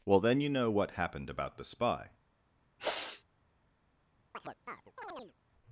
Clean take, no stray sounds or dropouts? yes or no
no